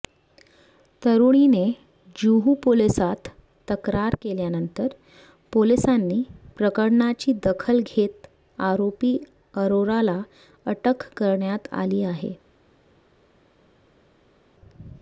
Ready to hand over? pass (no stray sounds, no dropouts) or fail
pass